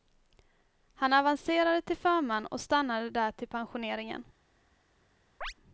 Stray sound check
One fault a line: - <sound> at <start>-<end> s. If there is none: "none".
- chirp at 5.4-5.5 s